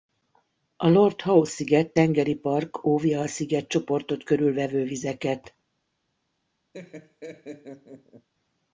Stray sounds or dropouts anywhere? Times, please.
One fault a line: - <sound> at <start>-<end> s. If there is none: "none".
- laugh at 6.7-8.3 s